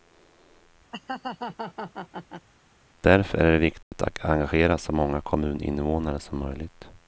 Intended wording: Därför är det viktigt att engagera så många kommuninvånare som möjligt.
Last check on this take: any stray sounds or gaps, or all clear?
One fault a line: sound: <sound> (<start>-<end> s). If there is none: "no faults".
sound: laugh (0.9-2.5 s)
sound: dropout (3.8-3.9 s)